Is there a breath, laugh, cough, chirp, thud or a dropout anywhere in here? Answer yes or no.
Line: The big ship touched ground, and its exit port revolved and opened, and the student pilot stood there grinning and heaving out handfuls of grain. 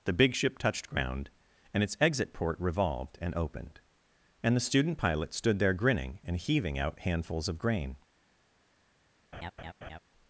yes